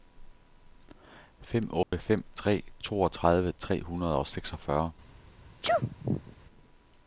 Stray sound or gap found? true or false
true